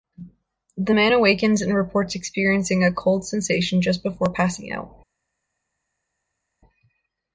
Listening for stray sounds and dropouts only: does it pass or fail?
pass